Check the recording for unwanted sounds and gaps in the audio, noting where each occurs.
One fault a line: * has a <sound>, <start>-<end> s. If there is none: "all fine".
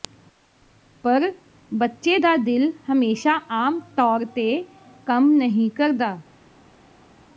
all fine